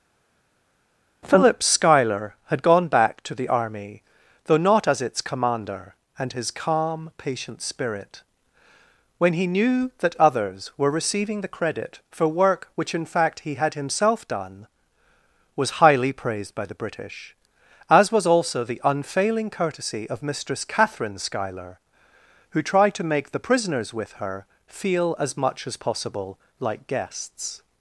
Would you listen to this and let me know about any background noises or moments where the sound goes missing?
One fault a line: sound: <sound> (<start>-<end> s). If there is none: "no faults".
no faults